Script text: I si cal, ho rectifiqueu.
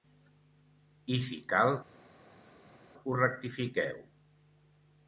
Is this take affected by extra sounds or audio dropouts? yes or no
no